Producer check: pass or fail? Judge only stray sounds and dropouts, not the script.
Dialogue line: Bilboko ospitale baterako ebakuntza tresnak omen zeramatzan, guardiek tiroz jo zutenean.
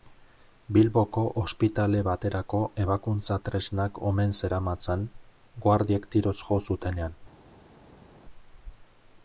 pass